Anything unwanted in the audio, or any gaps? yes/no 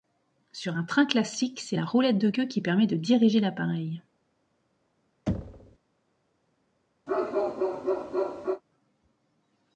yes